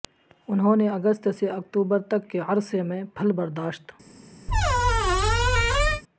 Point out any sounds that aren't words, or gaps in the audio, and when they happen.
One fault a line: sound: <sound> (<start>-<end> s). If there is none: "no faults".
sound: squeak (4.5-6.0 s)